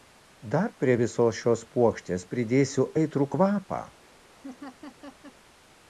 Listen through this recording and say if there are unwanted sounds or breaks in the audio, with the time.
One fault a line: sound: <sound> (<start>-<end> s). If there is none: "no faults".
sound: laugh (4.4-5.4 s)